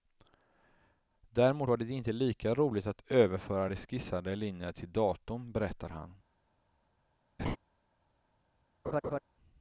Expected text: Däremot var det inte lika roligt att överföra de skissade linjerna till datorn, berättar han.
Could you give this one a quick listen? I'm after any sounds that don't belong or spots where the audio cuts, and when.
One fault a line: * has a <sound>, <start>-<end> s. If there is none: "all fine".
* has a laugh, 7.4-7.6 s
* has a laugh, 8.8-9.2 s